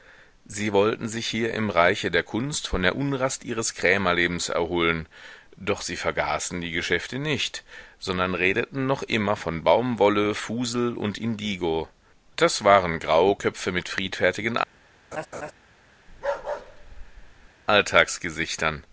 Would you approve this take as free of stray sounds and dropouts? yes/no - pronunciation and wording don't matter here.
no